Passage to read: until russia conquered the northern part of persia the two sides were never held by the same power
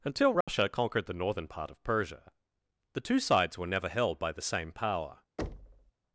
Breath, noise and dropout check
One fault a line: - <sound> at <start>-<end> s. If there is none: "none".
- dropout at 0.4-0.5 s
- thud at 5.4-5.9 s